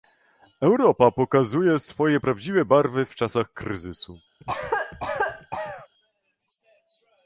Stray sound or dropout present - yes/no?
yes